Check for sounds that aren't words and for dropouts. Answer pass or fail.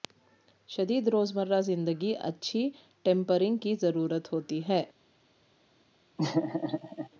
fail